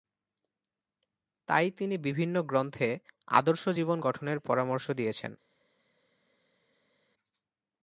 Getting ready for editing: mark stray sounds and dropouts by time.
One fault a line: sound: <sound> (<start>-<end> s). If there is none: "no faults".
no faults